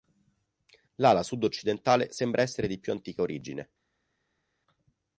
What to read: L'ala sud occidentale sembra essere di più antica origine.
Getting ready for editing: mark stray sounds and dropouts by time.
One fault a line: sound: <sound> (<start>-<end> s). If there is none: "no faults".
no faults